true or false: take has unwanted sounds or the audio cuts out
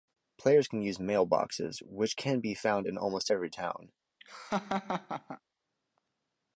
true